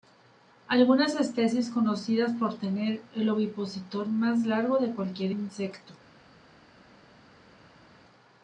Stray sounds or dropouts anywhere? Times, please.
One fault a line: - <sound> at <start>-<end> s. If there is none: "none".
none